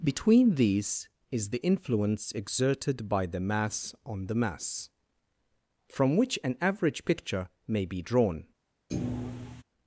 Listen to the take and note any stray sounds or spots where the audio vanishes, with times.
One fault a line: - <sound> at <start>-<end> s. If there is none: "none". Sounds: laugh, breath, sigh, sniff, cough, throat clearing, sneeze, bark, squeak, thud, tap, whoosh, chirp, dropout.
- thud at 8.9-9.6 s